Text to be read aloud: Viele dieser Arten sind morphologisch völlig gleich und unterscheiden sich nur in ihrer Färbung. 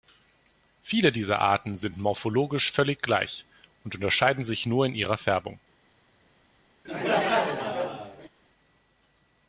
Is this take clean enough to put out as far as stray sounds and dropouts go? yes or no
no